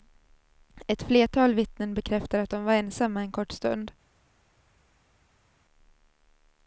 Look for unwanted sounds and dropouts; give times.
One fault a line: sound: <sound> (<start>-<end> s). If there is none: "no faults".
no faults